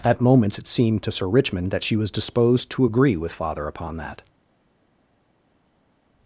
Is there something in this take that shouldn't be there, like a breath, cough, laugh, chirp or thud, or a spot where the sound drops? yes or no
no